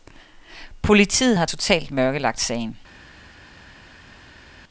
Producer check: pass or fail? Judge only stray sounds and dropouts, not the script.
pass